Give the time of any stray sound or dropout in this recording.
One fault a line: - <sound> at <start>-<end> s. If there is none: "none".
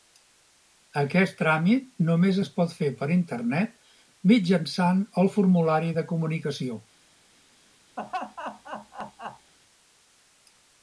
- laugh at 8.0-9.5 s